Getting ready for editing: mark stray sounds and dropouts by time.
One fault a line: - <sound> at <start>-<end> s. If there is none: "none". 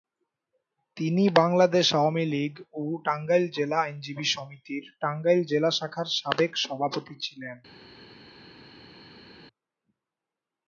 none